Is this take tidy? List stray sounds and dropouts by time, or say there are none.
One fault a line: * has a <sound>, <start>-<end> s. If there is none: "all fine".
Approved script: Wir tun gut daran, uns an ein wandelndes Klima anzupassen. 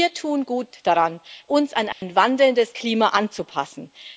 * has a dropout, 1.9-2.0 s